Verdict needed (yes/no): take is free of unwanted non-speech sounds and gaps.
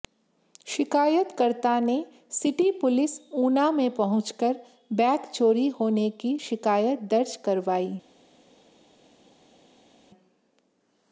yes